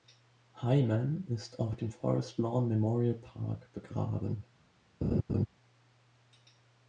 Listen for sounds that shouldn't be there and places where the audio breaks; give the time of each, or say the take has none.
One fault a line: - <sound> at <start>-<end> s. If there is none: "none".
- laugh at 5.0-5.5 s